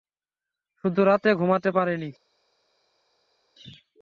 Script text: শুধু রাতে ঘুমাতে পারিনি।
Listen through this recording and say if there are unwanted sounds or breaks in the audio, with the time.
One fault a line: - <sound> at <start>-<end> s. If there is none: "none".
none